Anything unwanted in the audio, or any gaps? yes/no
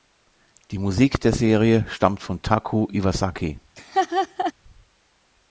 yes